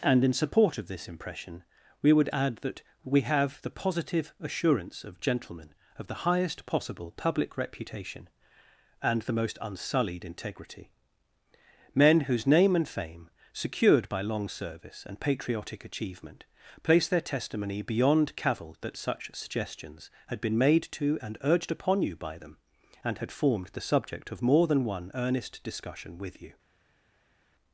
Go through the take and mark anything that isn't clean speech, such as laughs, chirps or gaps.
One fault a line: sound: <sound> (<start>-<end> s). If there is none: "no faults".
no faults